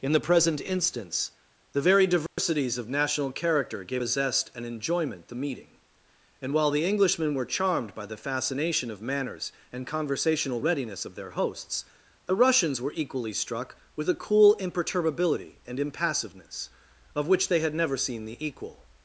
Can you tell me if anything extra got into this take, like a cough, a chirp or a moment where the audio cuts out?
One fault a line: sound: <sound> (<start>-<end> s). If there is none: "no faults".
sound: dropout (2.3-2.4 s)